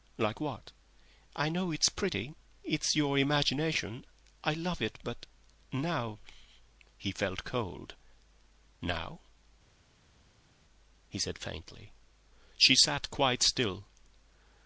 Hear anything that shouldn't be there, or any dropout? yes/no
no